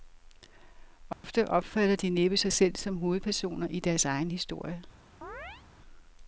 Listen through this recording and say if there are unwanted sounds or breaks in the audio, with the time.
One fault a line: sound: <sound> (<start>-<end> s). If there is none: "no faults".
sound: dropout (1.1-1.2 s)
sound: chirp (5.2-5.6 s)